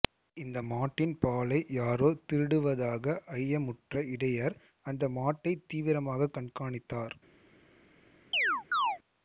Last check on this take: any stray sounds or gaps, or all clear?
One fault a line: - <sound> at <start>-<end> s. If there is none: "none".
- chirp at 8.3-9.0 s